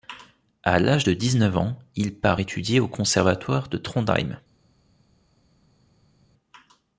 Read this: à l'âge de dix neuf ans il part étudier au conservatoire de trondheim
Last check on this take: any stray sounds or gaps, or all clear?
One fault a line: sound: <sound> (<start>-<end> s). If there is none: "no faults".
no faults